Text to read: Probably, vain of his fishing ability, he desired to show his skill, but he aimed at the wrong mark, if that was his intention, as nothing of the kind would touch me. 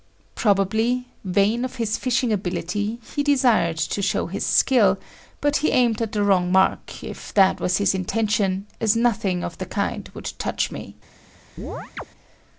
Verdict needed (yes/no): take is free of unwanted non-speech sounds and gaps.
no